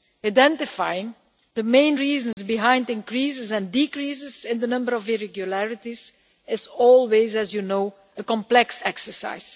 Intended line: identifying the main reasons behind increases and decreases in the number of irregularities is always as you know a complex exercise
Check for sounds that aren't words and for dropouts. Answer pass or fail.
fail